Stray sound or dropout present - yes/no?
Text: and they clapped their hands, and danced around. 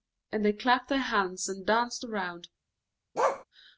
yes